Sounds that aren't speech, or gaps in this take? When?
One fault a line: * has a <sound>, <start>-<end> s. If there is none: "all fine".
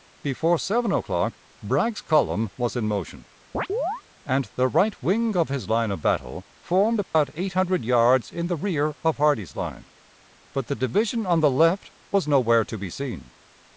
* has a chirp, 3.5-4.0 s
* has a dropout, 7.0-7.1 s